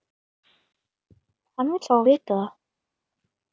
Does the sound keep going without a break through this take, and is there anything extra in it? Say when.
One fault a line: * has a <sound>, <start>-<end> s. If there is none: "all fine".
all fine